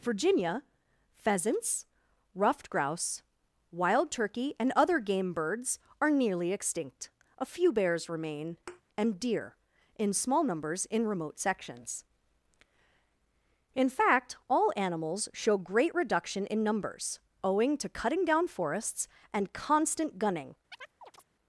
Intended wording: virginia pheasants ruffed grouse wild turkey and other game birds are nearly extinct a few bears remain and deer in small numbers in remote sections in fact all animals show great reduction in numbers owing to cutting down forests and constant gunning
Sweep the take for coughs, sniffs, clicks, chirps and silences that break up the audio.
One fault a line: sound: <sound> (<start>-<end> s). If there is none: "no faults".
sound: thud (8.7-8.8 s)
sound: chirp (20.7-21.2 s)